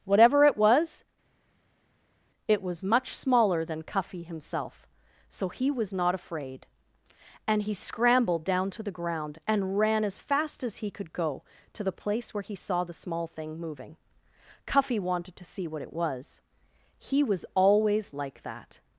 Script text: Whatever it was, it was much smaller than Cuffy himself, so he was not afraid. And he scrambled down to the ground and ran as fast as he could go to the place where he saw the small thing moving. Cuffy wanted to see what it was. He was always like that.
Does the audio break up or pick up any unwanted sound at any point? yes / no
no